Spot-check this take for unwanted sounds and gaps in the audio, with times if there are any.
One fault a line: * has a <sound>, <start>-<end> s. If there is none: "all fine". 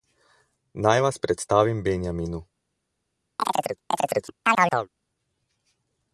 * has a chirp, 3.4-4.9 s